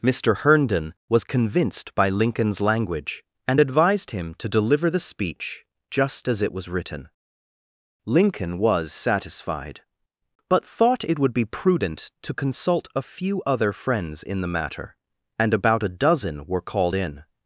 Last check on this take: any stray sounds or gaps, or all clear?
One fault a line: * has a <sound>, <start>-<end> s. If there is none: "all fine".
all fine